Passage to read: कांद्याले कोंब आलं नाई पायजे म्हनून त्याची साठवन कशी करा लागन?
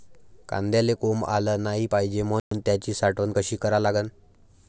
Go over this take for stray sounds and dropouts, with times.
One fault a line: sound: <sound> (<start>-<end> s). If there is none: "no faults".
sound: dropout (2.4-2.5 s)